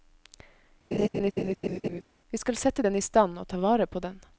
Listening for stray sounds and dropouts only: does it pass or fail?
fail